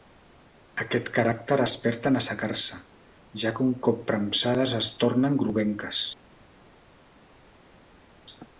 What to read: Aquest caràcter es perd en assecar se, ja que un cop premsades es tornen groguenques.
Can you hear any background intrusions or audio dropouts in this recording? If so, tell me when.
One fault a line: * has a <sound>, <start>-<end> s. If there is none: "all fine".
all fine